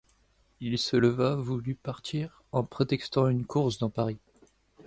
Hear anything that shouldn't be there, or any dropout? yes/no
no